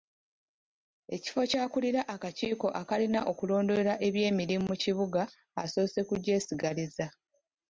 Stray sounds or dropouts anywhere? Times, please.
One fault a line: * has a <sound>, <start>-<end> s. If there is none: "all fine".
all fine